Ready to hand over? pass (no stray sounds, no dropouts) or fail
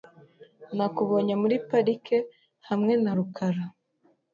pass